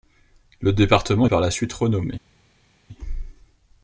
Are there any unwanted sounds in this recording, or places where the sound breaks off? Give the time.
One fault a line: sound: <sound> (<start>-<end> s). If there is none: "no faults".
no faults